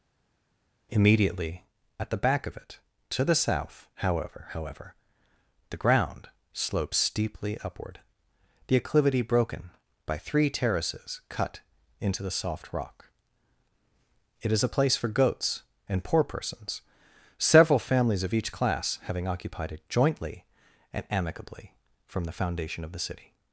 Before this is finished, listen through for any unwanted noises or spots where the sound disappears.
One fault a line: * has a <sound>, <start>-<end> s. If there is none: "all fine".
all fine